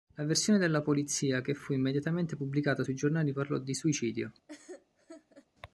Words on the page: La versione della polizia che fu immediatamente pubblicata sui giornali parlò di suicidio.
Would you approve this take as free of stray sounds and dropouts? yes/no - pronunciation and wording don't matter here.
no